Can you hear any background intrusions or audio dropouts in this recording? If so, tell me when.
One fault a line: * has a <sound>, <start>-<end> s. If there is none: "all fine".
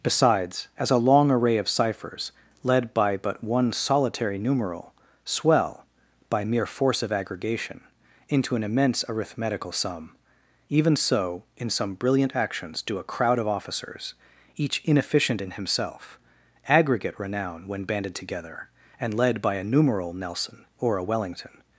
all fine